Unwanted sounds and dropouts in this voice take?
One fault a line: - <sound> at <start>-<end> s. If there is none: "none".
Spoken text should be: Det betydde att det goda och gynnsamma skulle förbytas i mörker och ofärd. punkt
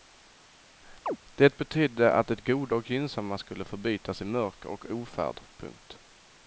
- chirp at 1.1-1.2 s